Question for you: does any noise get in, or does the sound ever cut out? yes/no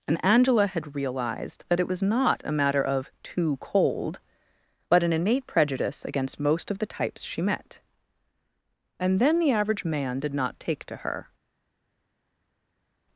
no